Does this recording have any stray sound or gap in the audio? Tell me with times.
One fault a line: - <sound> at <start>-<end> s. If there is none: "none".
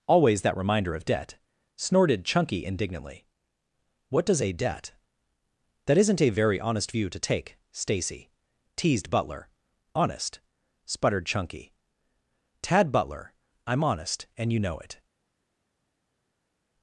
none